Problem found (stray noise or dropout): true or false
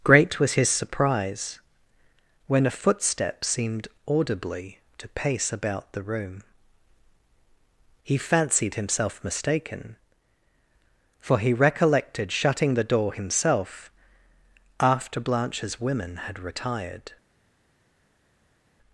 false